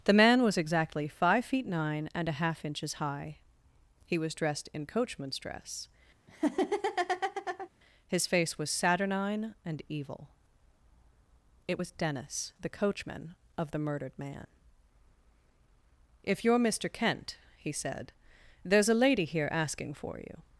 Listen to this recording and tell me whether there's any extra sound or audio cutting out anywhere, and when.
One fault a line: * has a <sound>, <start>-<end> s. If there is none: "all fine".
* has a laugh, 6.3-7.7 s